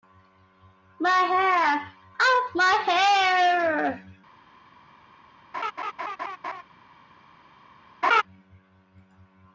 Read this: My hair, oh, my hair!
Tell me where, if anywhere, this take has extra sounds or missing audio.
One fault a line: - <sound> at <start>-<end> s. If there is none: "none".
- laugh at 5.5-6.6 s
- laugh at 8.0-8.2 s